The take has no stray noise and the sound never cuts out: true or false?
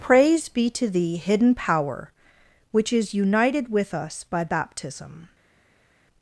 true